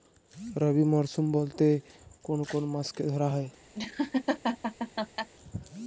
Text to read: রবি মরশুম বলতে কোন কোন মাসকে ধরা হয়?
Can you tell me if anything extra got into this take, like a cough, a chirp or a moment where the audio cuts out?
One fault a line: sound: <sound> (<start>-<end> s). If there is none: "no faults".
sound: laugh (3.7-5.3 s)